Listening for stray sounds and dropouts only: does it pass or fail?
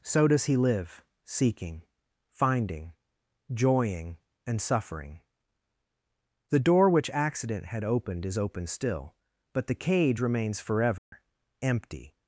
fail